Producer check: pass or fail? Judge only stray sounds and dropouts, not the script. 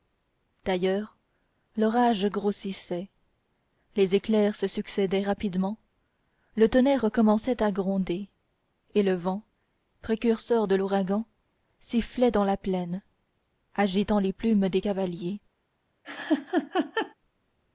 fail